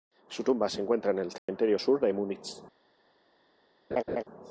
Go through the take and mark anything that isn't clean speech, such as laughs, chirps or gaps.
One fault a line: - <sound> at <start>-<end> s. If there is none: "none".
- dropout at 1.4-1.5 s
- laugh at 3.9-4.2 s